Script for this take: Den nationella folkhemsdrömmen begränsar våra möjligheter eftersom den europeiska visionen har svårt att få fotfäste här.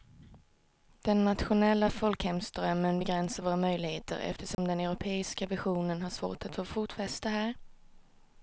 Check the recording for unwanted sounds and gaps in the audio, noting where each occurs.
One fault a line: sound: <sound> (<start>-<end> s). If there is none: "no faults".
sound: dropout (4.5-4.6 s)